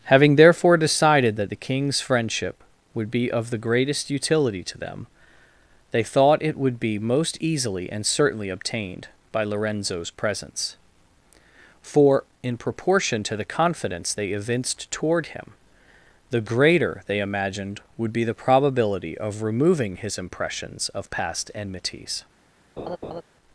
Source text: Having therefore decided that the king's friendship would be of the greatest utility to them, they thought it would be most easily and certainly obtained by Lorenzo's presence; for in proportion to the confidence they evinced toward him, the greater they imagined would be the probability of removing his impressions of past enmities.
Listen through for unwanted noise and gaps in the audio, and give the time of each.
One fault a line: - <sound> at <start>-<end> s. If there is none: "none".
- laugh at 22.8-23.2 s